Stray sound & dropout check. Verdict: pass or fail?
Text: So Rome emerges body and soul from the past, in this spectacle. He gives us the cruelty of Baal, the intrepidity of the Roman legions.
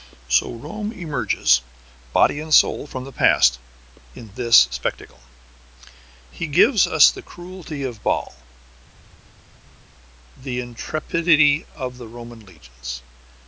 pass